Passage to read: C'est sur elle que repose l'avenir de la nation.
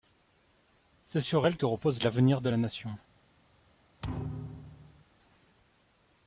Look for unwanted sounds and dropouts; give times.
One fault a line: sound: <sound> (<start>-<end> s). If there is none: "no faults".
sound: thud (4.0-5.0 s)